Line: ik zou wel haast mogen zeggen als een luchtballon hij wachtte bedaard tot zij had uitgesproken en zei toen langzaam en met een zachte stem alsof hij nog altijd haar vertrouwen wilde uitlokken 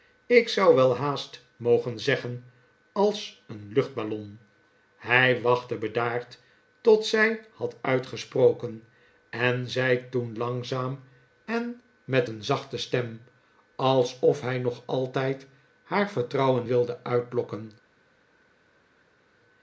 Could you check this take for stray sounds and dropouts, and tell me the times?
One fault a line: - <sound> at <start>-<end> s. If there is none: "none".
none